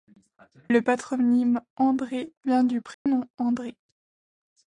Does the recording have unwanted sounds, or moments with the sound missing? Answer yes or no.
yes